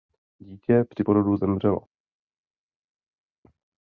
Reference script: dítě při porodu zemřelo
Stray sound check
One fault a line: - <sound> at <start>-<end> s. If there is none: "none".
none